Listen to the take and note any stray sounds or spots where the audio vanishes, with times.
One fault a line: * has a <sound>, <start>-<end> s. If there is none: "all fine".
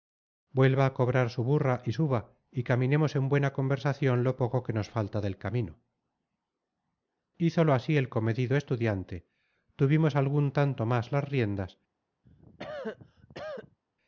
* has a cough, 12.2-13.8 s